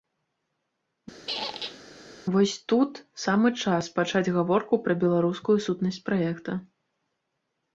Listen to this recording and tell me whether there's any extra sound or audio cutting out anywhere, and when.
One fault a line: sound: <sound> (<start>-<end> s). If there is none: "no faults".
sound: squeak (1.3-1.8 s)